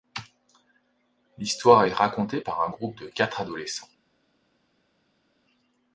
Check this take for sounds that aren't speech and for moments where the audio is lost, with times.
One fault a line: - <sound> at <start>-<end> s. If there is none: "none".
none